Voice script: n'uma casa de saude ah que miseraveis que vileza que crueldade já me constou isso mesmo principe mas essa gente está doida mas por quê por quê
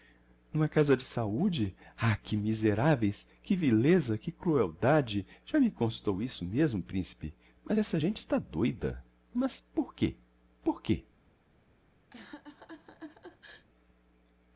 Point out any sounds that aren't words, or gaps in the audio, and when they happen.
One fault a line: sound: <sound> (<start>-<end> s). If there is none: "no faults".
sound: laugh (12.1-13.7 s)